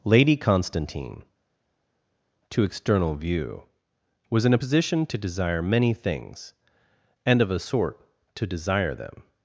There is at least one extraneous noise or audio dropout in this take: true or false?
false